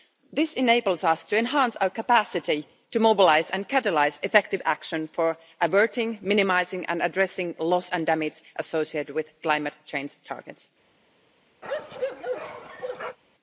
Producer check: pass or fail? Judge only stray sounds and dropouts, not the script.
fail